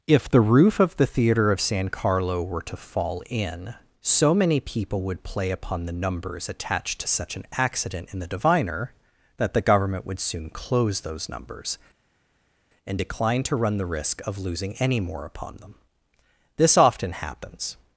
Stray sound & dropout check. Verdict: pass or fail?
pass